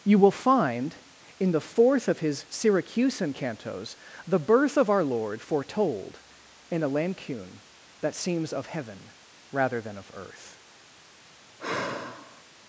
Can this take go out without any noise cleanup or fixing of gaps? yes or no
no